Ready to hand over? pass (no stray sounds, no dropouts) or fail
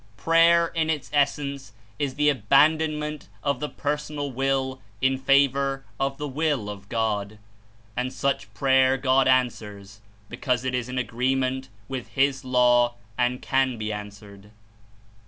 pass